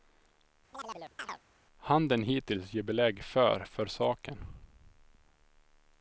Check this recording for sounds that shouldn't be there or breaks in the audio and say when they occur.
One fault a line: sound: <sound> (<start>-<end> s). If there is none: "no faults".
sound: chirp (0.7-1.4 s)